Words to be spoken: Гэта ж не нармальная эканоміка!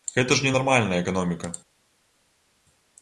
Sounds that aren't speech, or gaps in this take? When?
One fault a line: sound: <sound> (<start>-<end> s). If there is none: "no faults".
no faults